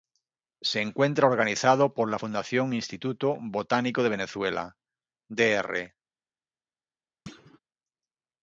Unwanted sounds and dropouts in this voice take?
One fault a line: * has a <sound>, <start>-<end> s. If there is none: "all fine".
* has a thud, 7.3-7.6 s